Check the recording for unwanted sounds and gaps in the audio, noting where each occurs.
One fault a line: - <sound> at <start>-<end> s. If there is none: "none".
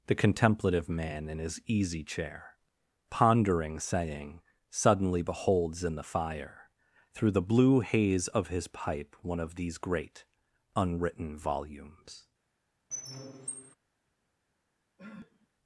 - squeak at 12.9-13.8 s
- sniff at 15.0-15.5 s